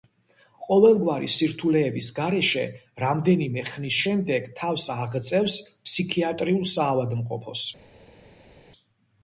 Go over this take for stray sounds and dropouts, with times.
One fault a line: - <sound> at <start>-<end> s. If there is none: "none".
none